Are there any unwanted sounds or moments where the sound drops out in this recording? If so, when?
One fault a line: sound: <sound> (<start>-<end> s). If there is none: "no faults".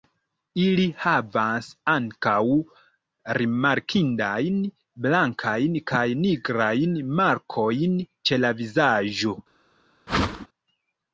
sound: whoosh (10.1-10.5 s)